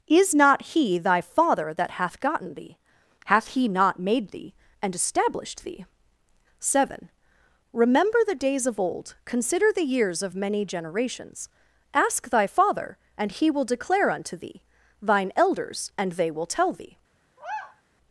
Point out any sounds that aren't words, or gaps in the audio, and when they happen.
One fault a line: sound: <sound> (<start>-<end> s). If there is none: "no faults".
sound: sigh (17.4-17.8 s)